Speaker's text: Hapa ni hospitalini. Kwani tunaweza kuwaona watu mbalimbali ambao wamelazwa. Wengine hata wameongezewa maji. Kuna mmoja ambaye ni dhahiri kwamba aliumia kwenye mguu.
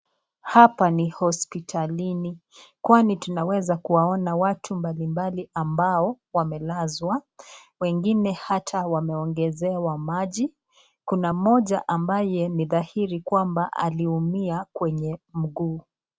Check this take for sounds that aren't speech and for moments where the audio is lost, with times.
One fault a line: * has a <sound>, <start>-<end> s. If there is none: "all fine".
all fine